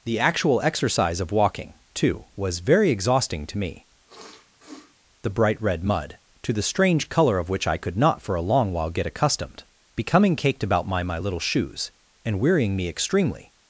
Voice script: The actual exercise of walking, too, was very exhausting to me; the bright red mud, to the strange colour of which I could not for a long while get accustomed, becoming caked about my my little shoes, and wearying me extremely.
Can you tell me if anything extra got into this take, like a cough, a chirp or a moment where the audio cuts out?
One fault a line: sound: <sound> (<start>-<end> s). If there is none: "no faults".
sound: sniff (4.1-4.9 s)